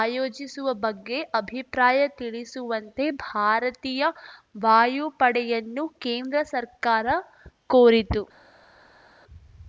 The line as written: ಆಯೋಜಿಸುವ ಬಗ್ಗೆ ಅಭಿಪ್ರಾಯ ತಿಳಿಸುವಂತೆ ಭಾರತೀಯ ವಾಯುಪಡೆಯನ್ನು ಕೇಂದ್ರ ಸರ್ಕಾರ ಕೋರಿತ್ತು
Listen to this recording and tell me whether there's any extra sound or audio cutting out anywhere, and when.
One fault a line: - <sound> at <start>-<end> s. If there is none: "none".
none